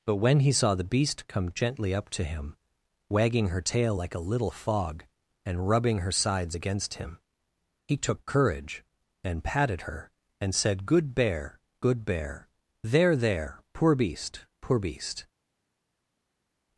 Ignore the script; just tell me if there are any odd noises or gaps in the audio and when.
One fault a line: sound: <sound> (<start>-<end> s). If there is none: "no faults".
no faults